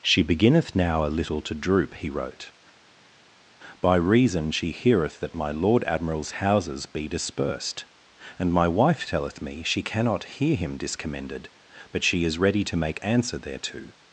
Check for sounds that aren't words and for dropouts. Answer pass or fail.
pass